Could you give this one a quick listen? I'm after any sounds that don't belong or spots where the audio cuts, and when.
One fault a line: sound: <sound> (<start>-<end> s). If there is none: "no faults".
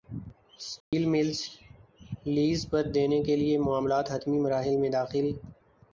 sound: dropout (0.8-0.9 s)